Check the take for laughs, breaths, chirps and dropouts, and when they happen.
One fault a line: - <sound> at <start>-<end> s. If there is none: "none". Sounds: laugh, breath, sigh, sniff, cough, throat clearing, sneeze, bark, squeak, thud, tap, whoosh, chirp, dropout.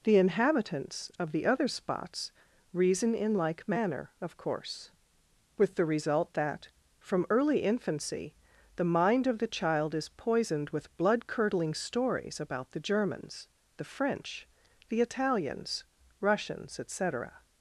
none